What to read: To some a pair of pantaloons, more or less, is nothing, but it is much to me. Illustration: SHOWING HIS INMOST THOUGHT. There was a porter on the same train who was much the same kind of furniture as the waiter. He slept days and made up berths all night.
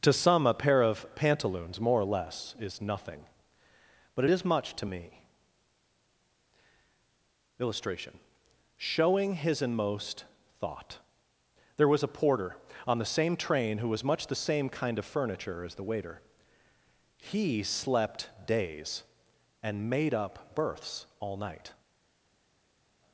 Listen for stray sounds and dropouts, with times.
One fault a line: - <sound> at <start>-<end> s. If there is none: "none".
none